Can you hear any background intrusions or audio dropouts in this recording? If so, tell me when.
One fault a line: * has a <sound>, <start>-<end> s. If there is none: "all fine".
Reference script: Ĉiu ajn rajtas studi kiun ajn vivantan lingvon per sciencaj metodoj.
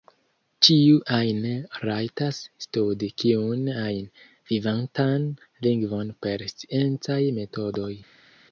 all fine